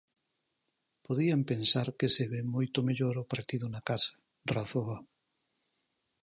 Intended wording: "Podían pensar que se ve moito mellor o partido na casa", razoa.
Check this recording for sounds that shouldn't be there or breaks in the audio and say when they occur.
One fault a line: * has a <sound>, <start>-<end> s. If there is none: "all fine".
all fine